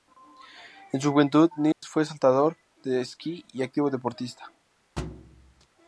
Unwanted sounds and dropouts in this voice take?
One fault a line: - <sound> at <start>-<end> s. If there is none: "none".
- dropout at 1.7-1.8 s
- thud at 5.0-5.7 s